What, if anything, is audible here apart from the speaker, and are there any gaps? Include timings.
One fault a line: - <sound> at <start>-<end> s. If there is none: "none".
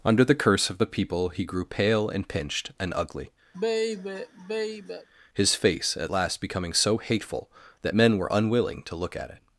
- sigh at 3.5-5.1 s